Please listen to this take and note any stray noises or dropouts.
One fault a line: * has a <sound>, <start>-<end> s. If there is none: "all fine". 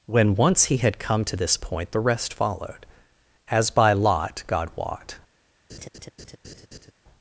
* has a laugh, 5.7-6.9 s